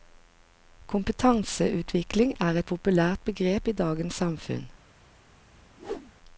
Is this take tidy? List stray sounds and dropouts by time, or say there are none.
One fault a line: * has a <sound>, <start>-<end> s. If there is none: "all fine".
* has a whoosh, 5.8-6.1 s